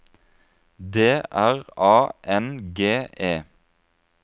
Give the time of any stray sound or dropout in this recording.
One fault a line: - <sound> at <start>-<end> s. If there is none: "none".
none